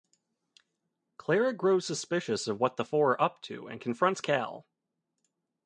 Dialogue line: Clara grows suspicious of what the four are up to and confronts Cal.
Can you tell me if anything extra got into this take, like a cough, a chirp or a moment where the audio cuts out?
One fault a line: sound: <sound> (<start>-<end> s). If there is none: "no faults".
no faults